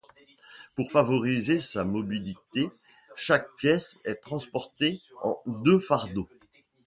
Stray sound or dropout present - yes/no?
no